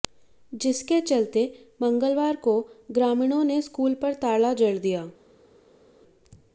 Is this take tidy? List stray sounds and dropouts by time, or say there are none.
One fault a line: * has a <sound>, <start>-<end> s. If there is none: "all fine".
all fine